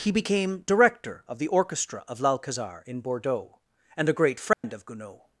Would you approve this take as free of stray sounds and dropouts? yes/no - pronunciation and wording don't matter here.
no